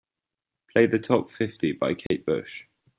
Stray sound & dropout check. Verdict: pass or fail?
fail